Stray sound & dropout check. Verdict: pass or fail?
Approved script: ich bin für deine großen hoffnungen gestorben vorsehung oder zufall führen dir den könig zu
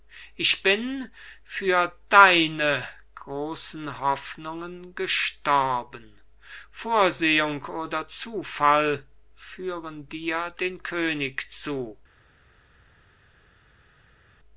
pass